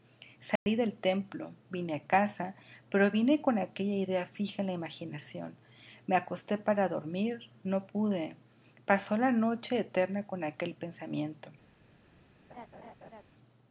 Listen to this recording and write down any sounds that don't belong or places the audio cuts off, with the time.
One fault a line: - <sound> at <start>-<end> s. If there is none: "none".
- dropout at 0.6-0.7 s
- laugh at 12.5-13.2 s